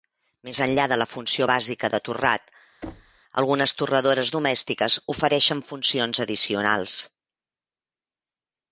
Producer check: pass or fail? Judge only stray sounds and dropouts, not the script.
fail